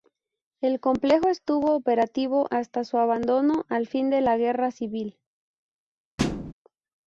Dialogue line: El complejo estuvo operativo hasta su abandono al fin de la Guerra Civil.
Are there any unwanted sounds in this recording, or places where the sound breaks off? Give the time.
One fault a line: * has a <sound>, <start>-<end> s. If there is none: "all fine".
* has a thud, 6.2-6.5 s